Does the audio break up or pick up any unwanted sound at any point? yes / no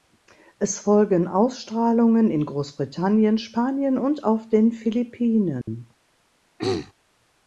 yes